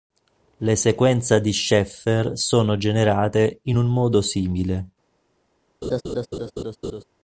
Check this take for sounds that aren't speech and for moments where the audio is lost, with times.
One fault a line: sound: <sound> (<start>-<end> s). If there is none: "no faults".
sound: laugh (5.8-7.0 s)